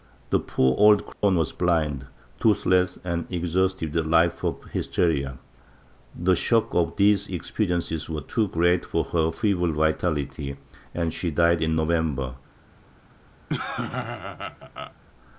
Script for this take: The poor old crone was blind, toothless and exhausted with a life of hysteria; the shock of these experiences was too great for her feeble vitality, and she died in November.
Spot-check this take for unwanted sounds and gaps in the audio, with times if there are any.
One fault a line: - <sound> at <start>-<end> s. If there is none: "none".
- dropout at 1.1-1.2 s
- laugh at 13.5-14.9 s